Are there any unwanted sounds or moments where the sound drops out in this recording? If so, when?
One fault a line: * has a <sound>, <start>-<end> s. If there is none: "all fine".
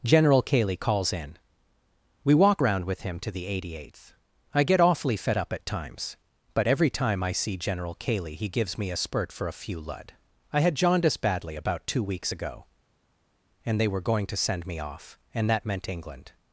all fine